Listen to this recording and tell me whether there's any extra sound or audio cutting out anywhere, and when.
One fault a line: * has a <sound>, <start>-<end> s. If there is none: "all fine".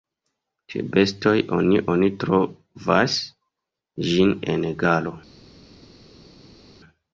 all fine